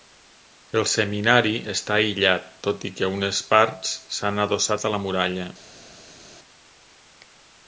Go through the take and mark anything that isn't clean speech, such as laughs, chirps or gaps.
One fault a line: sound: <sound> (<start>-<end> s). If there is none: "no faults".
no faults